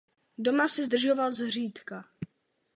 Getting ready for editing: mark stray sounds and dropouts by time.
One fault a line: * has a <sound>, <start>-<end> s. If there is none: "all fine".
all fine